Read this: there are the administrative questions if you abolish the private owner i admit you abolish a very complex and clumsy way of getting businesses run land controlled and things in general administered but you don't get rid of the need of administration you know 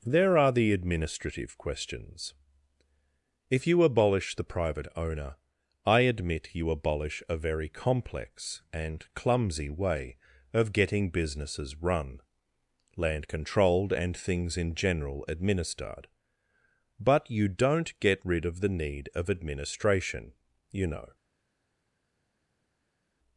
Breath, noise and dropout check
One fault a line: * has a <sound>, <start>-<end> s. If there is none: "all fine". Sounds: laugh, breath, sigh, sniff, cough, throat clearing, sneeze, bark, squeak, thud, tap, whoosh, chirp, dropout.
all fine